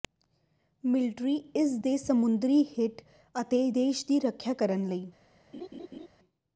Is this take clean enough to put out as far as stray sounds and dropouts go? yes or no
no